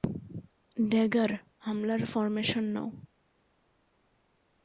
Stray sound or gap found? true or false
false